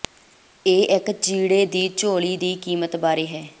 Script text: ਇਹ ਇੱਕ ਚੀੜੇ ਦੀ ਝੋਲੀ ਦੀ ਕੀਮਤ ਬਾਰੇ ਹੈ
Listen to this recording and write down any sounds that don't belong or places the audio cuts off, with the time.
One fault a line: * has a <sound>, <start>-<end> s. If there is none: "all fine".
all fine